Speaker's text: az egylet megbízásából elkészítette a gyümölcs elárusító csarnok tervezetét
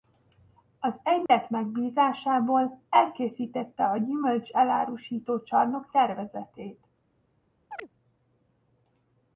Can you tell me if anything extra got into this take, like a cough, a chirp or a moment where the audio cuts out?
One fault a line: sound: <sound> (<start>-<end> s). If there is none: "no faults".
sound: dropout (1.3-1.3 s)
sound: chirp (7.7-7.9 s)